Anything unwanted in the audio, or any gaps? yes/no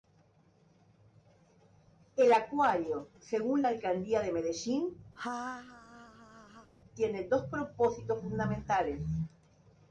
yes